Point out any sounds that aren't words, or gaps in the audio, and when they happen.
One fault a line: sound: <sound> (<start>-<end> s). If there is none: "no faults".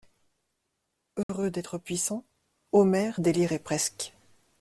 sound: dropout (1.2-1.3 s)